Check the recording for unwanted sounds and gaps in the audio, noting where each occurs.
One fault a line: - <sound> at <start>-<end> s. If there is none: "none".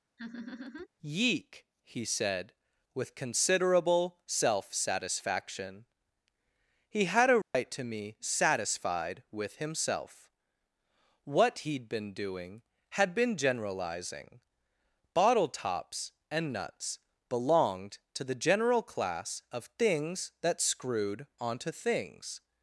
- laugh at 0.2-0.9 s
- dropout at 7.4-7.5 s